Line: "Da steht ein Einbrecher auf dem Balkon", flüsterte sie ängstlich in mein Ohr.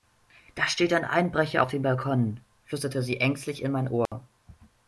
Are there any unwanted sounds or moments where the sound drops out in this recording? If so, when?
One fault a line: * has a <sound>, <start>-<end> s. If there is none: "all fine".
* has a dropout, 4.1-4.1 s